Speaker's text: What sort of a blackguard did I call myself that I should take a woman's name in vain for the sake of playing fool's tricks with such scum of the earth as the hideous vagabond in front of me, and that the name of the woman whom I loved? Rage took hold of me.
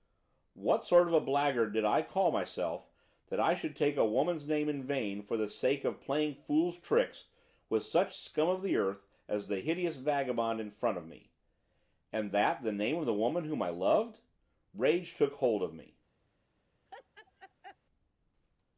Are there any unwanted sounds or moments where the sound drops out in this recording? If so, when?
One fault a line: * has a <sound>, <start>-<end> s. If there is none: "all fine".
* has a laugh, 16.9-17.8 s